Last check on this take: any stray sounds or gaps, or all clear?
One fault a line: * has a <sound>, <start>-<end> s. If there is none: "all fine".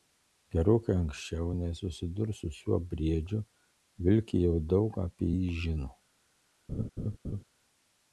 * has a laugh, 6.7-7.4 s